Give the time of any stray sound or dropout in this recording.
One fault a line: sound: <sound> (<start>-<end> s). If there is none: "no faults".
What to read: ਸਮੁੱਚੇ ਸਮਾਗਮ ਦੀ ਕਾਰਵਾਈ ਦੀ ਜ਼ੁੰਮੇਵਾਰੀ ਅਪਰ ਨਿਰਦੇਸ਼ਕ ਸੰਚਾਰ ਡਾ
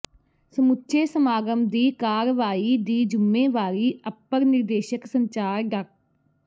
no faults